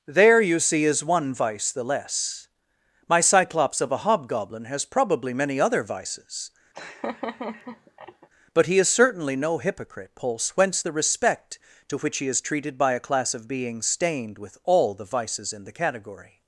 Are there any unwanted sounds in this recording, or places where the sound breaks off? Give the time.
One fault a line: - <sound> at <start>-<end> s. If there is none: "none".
- laugh at 6.7-8.3 s